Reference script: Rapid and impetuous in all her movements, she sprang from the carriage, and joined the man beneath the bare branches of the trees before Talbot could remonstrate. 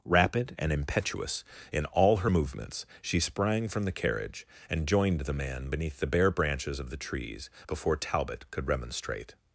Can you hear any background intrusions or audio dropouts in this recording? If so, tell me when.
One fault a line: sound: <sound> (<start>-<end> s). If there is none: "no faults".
no faults